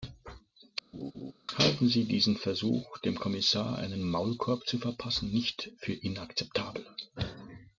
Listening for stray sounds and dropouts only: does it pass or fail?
fail